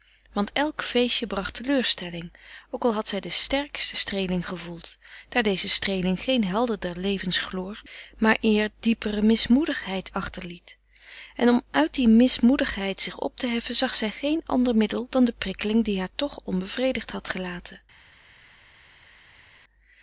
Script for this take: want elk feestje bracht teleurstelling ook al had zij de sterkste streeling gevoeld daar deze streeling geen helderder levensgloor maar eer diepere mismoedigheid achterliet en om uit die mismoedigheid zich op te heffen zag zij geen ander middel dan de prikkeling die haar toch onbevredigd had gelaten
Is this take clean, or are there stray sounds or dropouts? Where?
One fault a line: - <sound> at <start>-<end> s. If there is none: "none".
none